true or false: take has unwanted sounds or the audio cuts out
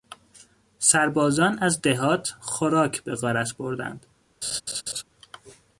true